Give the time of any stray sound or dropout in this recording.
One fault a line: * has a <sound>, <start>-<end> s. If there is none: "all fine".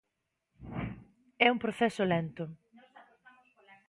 all fine